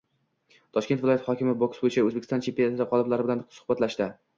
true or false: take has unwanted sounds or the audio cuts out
false